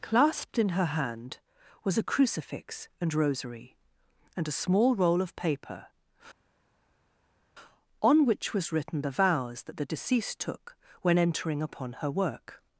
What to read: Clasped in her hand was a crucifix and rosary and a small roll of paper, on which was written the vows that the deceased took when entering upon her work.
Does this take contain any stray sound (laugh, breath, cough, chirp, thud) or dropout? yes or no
no